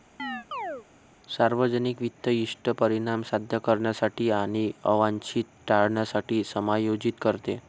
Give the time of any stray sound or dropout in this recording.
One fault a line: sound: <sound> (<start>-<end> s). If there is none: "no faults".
sound: chirp (0.2-0.9 s)